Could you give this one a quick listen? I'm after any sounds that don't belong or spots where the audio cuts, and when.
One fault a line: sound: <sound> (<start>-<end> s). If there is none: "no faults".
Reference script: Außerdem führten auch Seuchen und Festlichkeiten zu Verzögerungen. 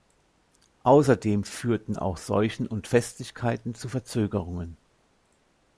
no faults